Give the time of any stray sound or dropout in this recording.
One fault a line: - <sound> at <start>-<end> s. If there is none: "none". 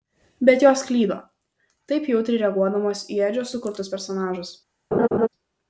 - laugh at 4.9-5.3 s